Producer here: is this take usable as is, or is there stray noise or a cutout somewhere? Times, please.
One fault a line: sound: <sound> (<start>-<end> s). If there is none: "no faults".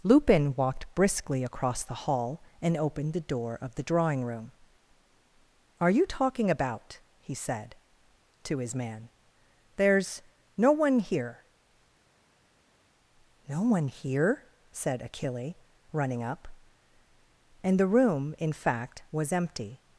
no faults